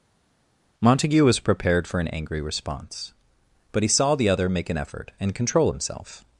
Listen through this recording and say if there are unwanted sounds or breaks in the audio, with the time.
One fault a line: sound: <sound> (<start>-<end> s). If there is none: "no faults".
no faults